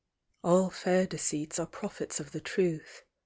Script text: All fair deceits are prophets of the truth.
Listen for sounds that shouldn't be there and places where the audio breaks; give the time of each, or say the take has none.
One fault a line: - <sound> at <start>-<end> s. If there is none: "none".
none